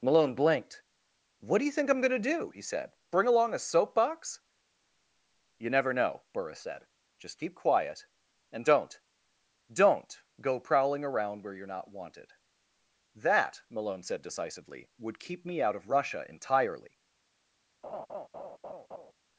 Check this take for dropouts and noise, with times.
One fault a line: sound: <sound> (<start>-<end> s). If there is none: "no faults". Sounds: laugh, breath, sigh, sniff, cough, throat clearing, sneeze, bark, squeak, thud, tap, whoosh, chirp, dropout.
sound: laugh (17.8-19.1 s)